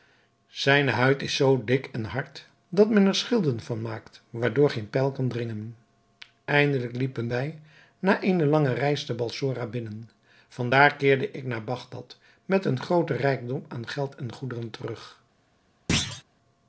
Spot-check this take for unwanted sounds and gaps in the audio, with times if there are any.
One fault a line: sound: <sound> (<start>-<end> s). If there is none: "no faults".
sound: thud (15.9-16.2 s)